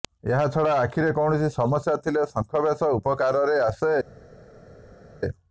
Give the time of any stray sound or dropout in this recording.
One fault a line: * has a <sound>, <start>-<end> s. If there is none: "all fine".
all fine